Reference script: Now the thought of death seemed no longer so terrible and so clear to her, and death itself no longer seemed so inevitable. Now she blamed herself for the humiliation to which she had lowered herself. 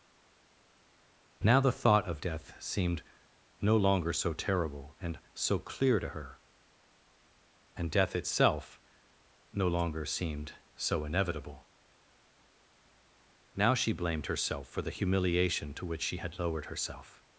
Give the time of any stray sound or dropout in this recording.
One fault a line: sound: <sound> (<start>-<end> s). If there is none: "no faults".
no faults